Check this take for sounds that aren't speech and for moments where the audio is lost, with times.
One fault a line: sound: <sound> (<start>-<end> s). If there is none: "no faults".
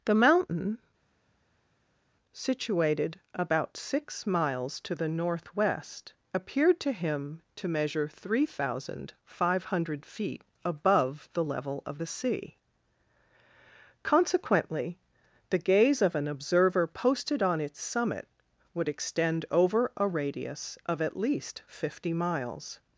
no faults